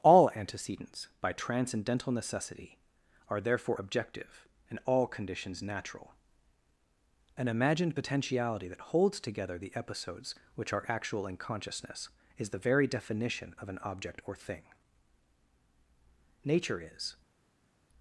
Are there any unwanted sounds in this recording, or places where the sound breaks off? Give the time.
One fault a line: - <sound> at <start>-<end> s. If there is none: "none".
none